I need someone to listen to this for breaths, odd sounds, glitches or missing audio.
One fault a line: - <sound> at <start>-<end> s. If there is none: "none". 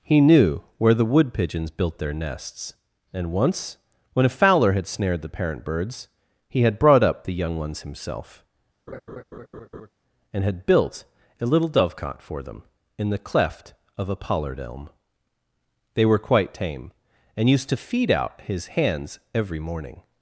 - laugh at 8.9-9.9 s